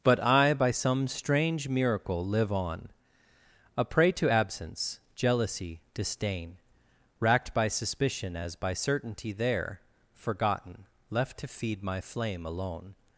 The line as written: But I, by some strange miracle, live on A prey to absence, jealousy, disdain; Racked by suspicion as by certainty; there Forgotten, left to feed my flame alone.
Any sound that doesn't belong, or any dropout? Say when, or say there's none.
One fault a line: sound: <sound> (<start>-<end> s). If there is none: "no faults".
no faults